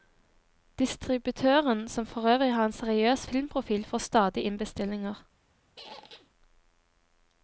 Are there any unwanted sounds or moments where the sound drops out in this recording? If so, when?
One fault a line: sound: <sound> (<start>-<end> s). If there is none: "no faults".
sound: squeak (5.8-6.3 s)